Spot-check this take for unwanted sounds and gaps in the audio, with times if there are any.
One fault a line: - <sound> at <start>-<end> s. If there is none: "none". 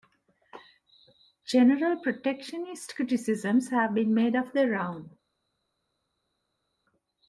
none